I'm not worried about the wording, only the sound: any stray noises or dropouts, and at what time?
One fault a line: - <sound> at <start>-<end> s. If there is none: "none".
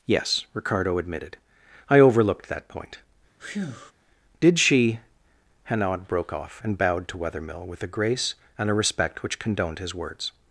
- breath at 3.4-3.9 s